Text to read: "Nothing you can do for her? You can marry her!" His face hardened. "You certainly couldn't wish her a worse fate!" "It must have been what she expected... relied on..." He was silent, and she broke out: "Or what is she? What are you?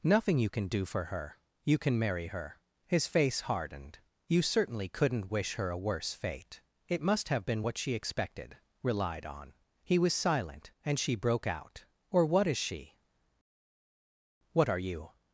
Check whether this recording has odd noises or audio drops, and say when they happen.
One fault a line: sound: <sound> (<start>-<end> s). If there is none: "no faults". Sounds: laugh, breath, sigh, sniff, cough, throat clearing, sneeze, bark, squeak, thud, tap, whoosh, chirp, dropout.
no faults